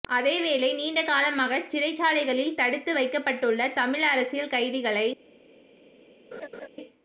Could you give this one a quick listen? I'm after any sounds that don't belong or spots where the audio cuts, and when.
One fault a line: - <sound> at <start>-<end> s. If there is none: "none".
- laugh at 6.3-6.7 s